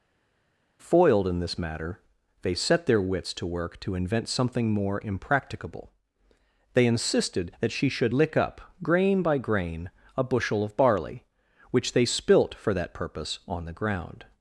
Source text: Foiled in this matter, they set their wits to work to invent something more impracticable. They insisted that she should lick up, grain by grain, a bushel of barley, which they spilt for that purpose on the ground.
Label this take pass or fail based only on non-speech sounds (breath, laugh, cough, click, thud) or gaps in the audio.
pass